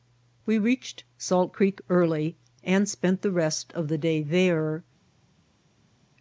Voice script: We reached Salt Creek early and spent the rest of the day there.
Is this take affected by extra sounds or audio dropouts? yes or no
no